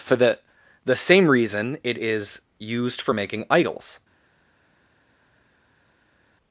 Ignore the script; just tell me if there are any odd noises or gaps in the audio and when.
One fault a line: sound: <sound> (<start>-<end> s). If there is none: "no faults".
no faults